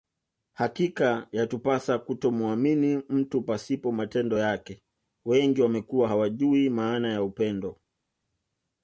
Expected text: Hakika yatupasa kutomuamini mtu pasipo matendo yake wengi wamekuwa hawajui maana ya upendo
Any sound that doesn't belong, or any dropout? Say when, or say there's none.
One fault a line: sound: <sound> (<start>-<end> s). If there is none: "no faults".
no faults